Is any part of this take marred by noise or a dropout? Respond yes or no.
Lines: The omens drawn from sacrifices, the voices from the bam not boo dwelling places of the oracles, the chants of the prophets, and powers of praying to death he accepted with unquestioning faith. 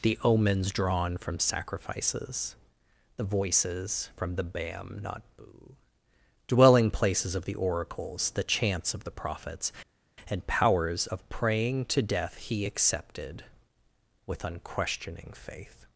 no